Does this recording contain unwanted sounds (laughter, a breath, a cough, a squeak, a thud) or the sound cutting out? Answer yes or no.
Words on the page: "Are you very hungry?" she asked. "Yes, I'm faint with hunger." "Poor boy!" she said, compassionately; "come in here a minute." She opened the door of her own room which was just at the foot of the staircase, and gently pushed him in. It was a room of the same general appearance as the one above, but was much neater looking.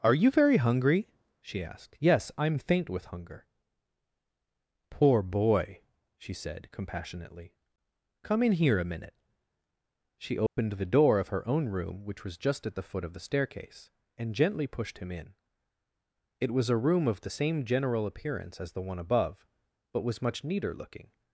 yes